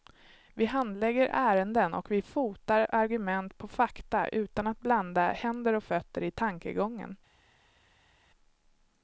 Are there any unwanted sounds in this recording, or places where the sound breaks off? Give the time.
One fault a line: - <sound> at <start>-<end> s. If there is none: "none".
none